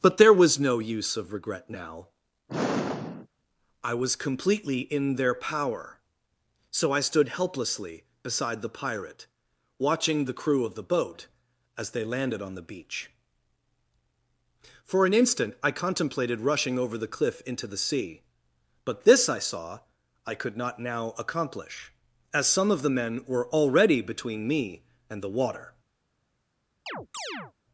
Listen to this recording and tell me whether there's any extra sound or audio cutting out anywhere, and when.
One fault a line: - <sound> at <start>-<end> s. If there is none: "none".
- sigh at 2.5-3.3 s
- chirp at 26.9-27.5 s